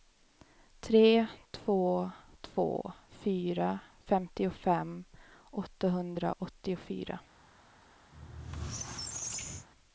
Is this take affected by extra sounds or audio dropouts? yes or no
yes